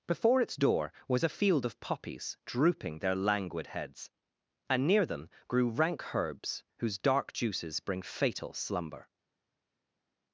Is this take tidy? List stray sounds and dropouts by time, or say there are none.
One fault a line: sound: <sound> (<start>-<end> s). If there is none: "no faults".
no faults